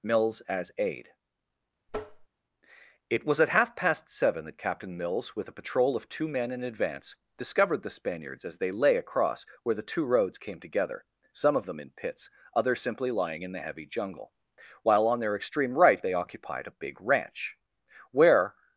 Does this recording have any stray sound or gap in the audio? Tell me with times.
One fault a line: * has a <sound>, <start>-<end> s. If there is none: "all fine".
* has a tap, 1.9-2.3 s